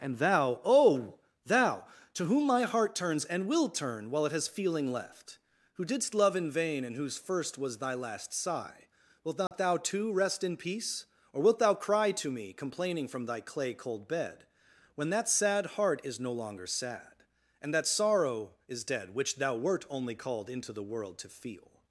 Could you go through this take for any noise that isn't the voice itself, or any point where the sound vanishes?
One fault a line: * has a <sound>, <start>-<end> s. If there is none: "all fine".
* has a dropout, 9.5-9.5 s